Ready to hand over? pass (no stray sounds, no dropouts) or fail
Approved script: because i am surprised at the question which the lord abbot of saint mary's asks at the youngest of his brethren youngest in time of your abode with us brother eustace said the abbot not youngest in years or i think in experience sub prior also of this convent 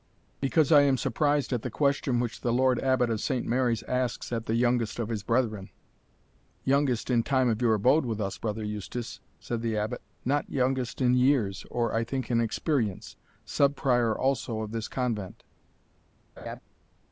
fail